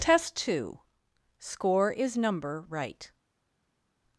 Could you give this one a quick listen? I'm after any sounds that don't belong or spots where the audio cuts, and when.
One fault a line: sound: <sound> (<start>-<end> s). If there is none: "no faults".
no faults